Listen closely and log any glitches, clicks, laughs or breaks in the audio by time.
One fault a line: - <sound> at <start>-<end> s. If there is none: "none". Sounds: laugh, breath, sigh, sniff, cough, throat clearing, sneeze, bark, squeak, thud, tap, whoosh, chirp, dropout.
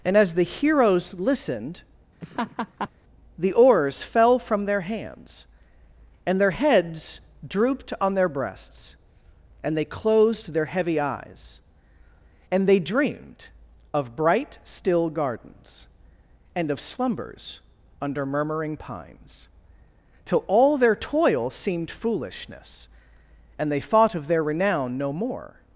- laugh at 2.2-2.9 s